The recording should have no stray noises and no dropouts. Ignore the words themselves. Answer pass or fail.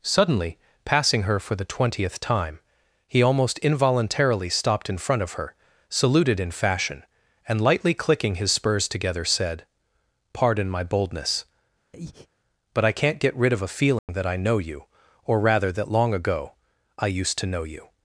fail